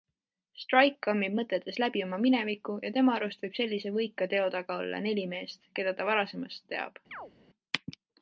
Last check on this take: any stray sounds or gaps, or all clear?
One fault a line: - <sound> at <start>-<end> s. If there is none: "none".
- chirp at 7.1-7.3 s